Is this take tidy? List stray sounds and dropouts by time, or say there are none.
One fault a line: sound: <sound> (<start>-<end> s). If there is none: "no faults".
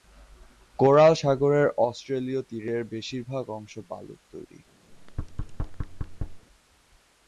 sound: thud (4.9-6.5 s)